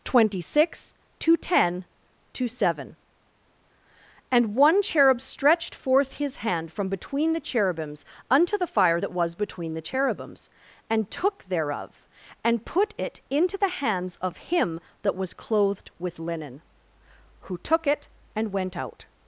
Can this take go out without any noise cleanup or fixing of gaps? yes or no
yes